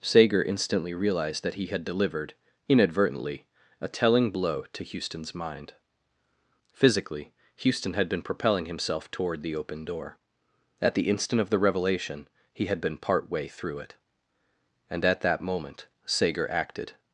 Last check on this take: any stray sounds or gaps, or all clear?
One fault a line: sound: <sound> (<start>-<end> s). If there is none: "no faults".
no faults